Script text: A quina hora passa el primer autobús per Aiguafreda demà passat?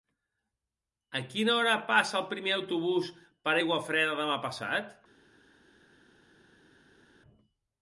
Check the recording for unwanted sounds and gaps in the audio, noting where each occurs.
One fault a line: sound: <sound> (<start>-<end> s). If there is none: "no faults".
no faults